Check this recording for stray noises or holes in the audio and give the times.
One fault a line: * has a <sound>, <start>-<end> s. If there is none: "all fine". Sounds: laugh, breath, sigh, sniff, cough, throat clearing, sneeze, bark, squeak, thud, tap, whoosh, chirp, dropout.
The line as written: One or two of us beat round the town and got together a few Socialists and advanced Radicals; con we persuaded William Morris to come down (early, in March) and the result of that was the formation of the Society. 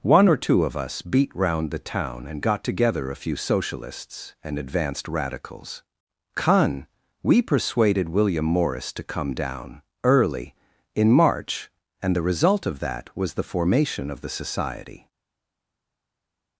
all fine